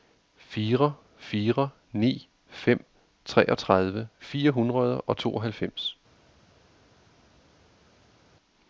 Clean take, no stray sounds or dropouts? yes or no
yes